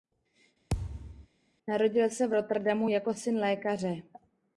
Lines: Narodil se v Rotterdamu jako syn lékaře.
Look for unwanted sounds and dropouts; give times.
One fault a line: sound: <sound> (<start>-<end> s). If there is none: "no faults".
sound: thud (0.7-1.3 s)